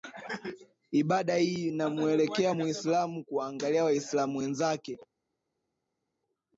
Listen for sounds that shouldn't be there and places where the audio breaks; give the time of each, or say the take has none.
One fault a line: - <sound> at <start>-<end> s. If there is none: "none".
none